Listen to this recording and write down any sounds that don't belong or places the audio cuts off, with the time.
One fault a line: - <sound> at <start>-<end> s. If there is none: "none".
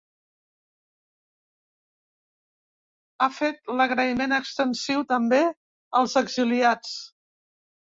none